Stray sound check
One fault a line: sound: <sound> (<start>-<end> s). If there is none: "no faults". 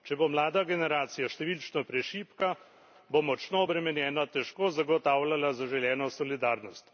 no faults